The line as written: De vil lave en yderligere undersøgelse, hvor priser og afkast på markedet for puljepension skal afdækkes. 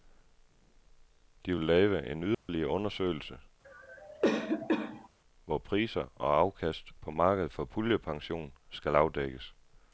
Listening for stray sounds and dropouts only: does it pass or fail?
fail